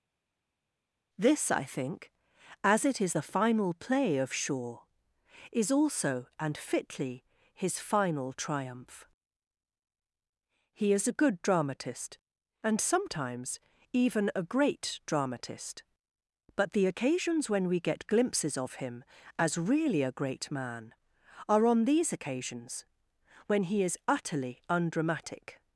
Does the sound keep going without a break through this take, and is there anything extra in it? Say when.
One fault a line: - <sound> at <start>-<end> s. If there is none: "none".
none